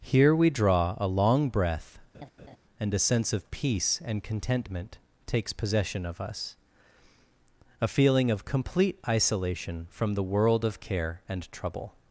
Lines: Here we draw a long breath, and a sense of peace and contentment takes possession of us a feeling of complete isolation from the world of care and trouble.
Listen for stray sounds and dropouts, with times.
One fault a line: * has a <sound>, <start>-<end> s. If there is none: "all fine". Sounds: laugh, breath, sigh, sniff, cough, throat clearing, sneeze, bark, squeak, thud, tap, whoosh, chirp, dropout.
* has a laugh, 2.1-2.6 s